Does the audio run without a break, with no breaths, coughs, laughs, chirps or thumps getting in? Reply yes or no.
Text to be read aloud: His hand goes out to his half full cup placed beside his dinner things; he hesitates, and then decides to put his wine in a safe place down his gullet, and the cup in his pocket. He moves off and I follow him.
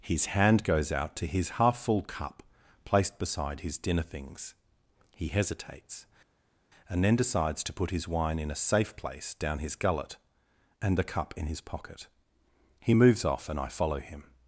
yes